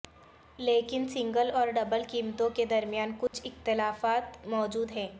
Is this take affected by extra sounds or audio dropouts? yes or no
yes